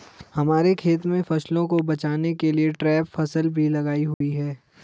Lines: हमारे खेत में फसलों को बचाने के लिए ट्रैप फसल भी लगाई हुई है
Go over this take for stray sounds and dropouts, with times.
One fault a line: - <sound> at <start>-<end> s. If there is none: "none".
- dropout at 4.1-4.2 s